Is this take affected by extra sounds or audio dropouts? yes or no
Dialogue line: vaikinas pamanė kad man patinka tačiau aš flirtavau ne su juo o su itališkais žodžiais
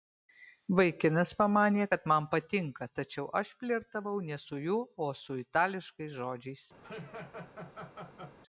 yes